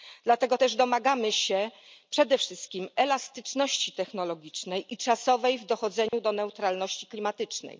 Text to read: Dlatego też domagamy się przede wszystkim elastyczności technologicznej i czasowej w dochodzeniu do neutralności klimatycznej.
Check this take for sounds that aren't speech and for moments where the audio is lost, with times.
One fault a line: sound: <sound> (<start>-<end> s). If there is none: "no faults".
sound: dropout (6.1-6.1 s)